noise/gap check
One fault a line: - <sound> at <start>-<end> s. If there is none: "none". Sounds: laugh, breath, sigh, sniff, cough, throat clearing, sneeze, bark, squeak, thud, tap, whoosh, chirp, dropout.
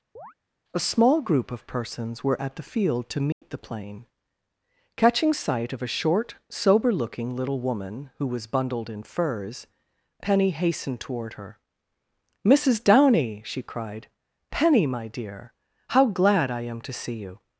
- chirp at 0.2-0.3 s
- dropout at 3.3-3.4 s